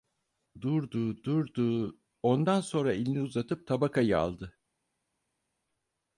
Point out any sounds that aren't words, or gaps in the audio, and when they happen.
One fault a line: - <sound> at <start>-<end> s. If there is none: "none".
none